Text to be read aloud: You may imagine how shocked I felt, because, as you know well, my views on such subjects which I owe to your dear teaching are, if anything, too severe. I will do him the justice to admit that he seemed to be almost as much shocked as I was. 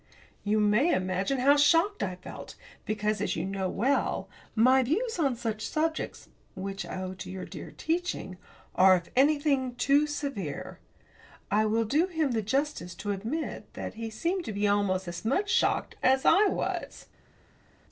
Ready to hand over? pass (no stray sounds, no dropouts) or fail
pass